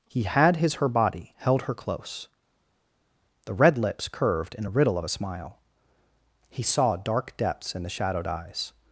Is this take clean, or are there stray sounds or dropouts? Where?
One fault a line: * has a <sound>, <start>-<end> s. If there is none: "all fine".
all fine